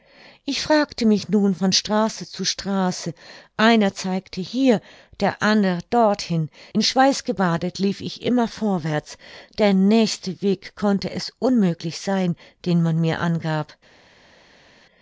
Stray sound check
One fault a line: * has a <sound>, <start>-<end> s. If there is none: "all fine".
all fine